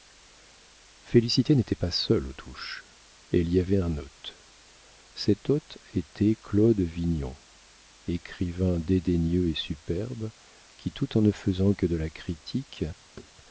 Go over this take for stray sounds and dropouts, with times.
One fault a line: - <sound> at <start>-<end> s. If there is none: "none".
- thud at 13.2-13.3 s